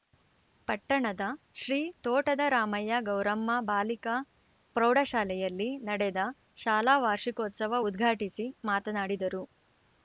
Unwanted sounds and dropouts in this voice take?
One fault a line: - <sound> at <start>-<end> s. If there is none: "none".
none